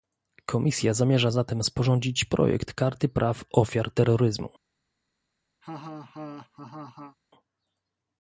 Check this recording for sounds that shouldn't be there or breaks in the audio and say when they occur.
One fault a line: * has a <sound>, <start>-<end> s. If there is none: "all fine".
* has a laugh, 5.6-7.2 s